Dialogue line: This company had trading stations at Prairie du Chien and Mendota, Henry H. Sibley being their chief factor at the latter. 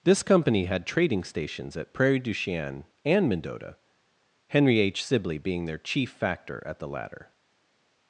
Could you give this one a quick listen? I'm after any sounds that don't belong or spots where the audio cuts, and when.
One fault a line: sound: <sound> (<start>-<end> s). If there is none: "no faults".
no faults